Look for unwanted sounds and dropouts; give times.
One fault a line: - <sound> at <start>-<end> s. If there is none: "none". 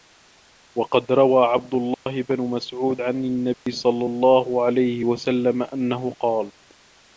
- dropout at 1.9-2.1 s
- dropout at 3.5-3.7 s